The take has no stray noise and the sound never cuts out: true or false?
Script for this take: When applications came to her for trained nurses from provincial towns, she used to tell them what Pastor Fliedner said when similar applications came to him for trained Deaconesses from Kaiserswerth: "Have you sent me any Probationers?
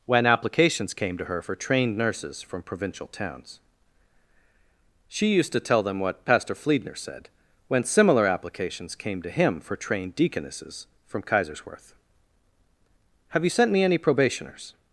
true